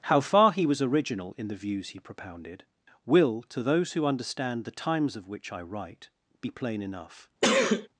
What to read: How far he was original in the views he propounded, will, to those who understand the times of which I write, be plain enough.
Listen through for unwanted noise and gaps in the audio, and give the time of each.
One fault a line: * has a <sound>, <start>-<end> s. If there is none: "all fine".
* has a sneeze, 7.4-7.9 s